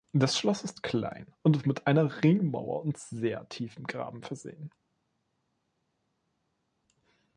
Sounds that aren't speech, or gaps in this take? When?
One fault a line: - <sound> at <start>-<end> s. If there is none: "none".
none